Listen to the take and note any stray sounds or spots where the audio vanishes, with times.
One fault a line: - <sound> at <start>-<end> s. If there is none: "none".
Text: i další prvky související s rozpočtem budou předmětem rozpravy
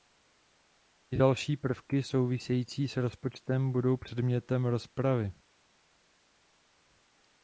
none